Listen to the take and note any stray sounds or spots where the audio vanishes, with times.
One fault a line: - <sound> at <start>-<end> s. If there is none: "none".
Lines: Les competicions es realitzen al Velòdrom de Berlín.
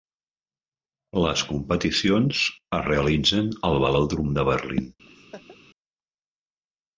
- laugh at 5.1-5.6 s